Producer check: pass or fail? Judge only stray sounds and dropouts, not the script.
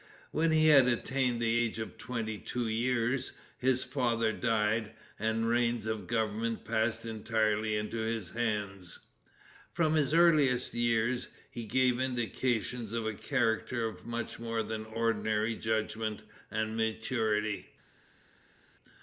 pass